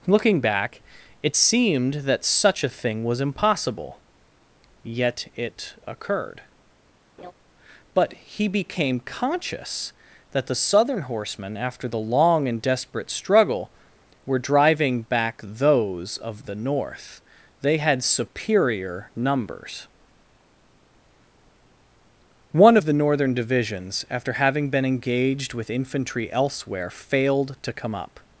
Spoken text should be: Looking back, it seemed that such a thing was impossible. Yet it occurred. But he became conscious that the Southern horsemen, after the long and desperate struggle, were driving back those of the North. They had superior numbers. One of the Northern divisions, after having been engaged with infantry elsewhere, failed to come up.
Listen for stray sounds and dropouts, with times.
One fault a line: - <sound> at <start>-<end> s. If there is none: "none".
- laugh at 7.2-7.3 s